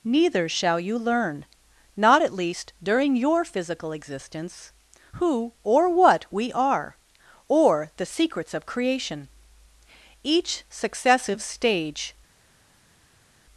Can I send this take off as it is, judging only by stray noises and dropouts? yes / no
yes